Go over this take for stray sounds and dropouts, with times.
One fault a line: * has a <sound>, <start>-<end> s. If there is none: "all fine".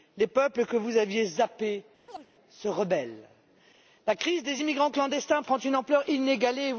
* has a chirp, 2.1-2.3 s